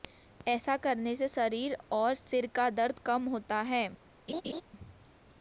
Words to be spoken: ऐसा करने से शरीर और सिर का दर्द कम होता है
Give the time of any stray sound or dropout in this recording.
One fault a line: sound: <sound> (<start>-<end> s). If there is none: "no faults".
sound: laugh (4.3-4.6 s)